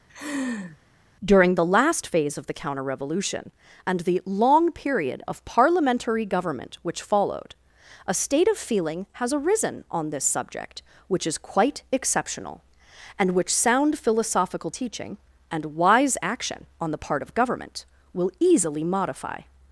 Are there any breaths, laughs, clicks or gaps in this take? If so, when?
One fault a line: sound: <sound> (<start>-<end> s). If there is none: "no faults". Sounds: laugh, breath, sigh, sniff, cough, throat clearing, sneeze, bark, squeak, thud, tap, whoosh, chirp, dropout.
sound: laugh (0.1-0.8 s)